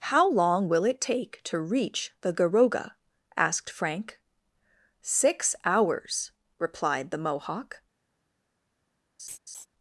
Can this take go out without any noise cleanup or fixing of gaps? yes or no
no